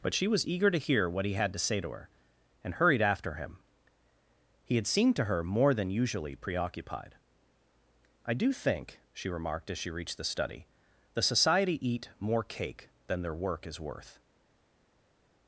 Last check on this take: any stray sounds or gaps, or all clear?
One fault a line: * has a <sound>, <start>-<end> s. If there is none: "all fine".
all fine